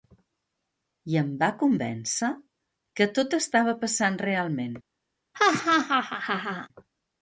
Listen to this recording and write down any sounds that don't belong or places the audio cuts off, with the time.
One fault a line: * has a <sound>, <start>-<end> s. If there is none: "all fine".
* has a laugh, 5.3-6.7 s